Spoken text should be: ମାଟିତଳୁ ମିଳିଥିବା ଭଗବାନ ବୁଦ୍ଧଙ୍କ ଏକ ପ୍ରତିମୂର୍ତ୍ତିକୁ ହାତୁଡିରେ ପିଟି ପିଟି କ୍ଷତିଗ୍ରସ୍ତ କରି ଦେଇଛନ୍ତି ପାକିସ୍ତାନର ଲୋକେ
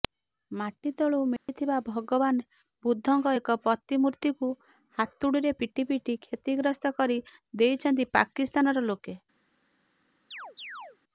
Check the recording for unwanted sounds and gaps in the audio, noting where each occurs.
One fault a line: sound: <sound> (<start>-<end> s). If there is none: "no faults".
sound: dropout (1.4-1.5 s)
sound: chirp (10.3-11.0 s)